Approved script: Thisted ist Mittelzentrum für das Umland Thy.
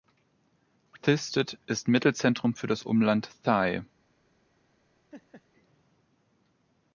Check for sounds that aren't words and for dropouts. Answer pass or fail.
fail